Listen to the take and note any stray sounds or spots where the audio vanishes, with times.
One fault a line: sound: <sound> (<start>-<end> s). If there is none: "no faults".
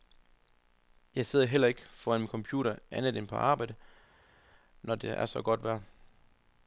no faults